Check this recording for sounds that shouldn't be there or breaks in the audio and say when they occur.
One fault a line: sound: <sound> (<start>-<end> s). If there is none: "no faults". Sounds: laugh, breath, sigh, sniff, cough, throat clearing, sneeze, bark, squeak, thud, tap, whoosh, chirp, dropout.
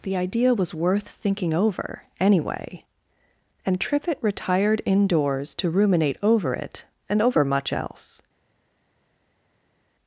no faults